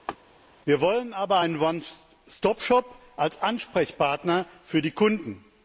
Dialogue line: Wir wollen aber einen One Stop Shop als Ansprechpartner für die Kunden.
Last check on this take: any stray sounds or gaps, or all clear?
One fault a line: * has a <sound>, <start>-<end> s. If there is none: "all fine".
* has a laugh, 0.1-0.2 s